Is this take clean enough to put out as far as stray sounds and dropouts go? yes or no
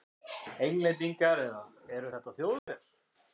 no